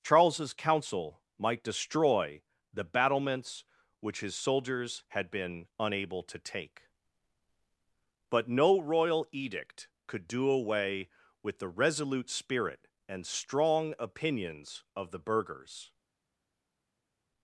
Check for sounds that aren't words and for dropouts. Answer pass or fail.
pass